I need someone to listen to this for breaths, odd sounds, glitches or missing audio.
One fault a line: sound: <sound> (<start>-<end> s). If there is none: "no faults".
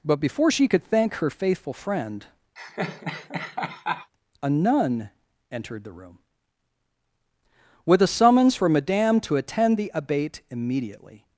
sound: laugh (2.6-4.1 s)